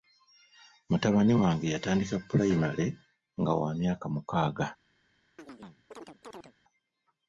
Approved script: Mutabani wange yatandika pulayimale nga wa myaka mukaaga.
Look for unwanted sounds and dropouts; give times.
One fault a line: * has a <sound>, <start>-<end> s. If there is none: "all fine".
* has a chirp, 5.4-6.5 s